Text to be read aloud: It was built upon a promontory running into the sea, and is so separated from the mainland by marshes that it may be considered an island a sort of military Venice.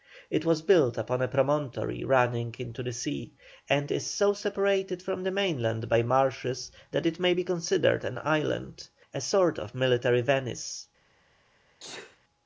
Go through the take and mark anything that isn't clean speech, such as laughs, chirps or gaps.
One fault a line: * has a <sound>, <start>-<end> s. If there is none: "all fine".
* has a sneeze, 11.8-12.2 s